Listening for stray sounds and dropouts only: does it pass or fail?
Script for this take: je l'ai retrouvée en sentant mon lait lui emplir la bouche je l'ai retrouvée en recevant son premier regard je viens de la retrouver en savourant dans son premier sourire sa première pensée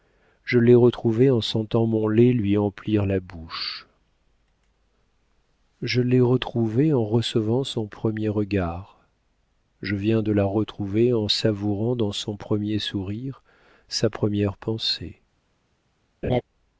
fail